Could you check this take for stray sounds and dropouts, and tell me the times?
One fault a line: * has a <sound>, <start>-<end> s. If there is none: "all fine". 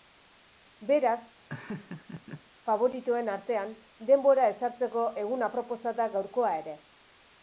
* has a laugh, 1.5-2.4 s